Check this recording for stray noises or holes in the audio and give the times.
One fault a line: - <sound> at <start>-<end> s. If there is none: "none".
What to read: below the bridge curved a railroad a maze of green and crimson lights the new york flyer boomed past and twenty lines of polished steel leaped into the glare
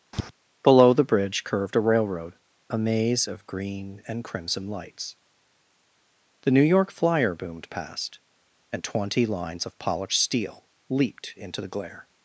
- tap at 0.1-0.3 s